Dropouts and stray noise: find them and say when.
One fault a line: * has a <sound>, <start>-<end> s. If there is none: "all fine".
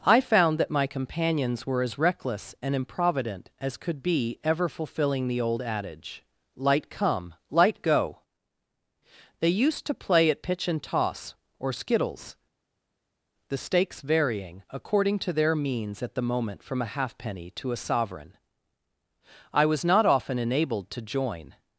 all fine